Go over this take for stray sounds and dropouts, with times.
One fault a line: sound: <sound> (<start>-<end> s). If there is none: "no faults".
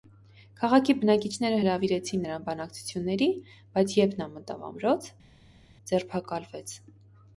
no faults